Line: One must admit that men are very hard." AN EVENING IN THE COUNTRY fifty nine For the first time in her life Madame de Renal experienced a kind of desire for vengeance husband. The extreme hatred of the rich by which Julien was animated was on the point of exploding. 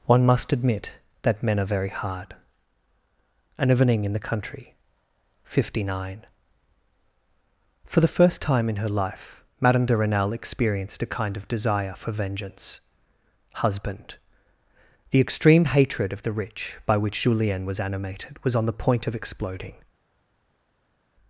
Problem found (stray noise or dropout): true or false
false